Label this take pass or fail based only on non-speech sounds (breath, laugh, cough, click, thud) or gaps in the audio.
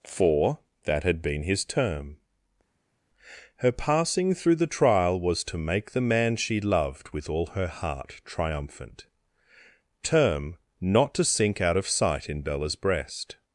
pass